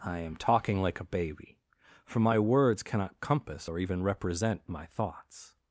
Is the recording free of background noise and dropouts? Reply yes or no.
yes